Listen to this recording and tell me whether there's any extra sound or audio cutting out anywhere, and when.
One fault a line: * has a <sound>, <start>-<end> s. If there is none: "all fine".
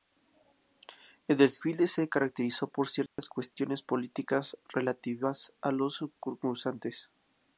* has a dropout, 3.1-3.2 s